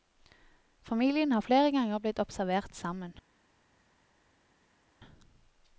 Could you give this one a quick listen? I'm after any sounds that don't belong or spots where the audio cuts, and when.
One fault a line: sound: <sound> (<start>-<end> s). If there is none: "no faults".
no faults